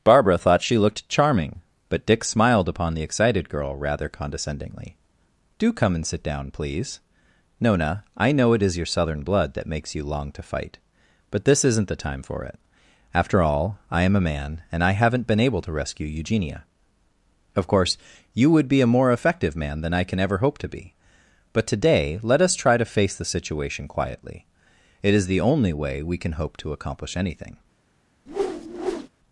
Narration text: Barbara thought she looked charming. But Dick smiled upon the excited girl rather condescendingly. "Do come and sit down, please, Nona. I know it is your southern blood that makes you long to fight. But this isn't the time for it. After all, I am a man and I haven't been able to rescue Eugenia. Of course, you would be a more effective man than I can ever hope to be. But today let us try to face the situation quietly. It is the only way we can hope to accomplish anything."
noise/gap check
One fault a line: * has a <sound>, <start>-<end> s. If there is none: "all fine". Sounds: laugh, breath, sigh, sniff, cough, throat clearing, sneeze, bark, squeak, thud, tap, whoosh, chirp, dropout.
* has a whoosh, 28.3-29.1 s